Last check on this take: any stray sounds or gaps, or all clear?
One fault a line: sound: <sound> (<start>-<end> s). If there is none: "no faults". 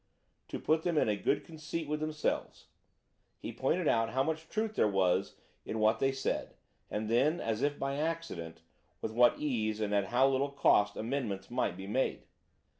no faults